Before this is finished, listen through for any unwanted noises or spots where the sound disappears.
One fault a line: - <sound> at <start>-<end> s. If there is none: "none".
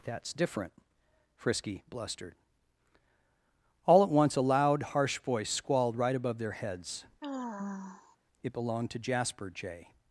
- sigh at 7.2-8.2 s